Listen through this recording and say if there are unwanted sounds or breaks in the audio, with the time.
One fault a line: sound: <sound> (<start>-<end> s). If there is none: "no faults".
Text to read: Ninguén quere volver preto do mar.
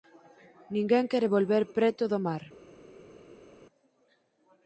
no faults